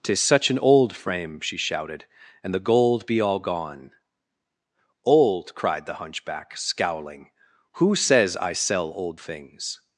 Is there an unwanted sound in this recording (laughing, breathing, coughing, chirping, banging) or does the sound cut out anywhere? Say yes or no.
no